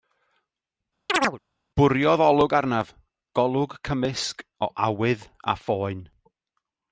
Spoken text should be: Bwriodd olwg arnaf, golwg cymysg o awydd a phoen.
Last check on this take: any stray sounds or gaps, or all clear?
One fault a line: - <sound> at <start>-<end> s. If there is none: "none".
- chirp at 1.1-1.4 s